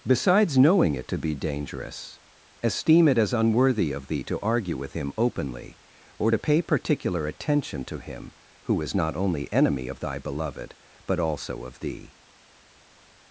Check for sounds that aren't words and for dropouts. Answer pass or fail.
pass